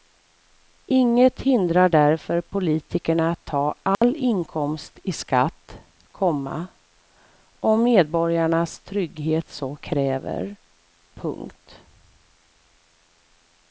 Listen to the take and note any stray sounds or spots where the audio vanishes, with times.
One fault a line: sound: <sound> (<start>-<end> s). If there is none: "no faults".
sound: dropout (3.9-4.0 s)